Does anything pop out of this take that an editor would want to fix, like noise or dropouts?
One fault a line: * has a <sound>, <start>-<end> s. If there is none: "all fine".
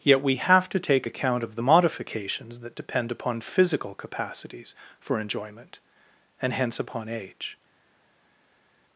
all fine